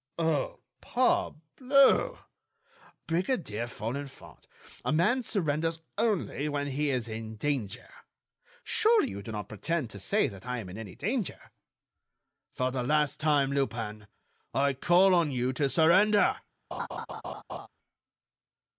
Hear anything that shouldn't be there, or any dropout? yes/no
yes